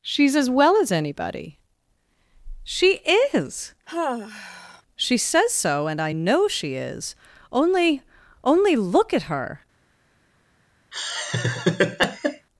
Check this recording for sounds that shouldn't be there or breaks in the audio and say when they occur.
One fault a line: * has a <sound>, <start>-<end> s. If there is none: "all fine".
* has a sigh, 3.9-4.8 s
* has a laugh, 10.9-12.5 s